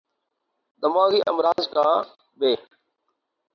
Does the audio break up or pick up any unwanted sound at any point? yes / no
yes